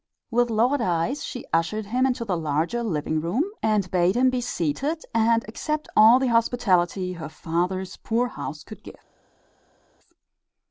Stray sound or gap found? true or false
false